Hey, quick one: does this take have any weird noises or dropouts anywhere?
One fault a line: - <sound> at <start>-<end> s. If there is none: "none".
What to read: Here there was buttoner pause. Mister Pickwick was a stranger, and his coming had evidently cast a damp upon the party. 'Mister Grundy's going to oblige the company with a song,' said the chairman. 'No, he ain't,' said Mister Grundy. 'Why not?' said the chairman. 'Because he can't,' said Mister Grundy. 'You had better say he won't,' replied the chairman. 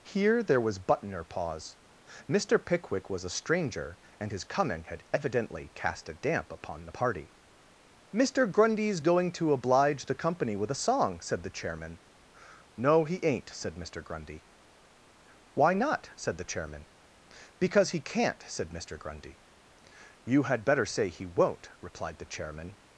none